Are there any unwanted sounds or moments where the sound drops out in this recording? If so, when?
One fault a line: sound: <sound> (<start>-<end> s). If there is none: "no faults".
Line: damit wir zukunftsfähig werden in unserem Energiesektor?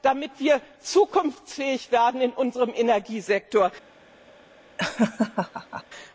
sound: laugh (4.8-5.8 s)